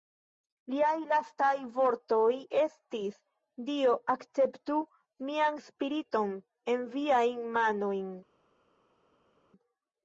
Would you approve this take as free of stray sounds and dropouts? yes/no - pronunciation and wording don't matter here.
yes